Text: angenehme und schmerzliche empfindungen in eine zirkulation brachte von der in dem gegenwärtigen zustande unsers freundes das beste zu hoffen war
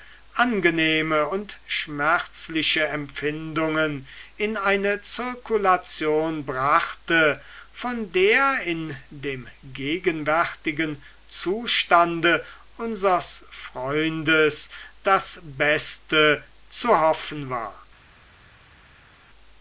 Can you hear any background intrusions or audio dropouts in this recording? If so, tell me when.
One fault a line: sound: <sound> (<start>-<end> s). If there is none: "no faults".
no faults